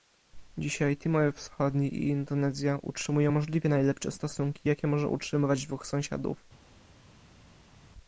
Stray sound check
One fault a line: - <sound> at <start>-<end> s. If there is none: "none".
none